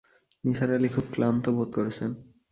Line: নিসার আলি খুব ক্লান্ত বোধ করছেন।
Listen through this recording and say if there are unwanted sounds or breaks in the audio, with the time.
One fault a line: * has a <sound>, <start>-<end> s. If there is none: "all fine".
all fine